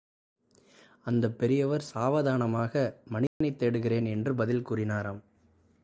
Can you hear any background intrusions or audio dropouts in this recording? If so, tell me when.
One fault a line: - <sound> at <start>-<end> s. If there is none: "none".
- dropout at 3.3-3.4 s